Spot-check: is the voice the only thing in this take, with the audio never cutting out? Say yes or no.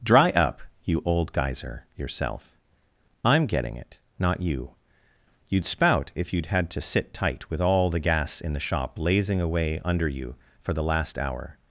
yes